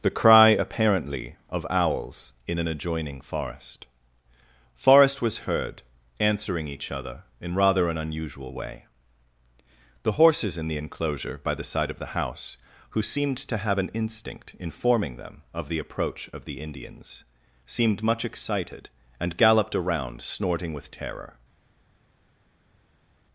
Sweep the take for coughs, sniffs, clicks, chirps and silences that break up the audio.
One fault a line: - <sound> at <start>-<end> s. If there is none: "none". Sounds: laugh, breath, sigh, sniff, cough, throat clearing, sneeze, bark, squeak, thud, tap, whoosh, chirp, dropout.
none